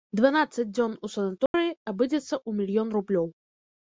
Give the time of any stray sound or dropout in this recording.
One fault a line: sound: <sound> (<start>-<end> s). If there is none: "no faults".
sound: dropout (1.5-1.5 s)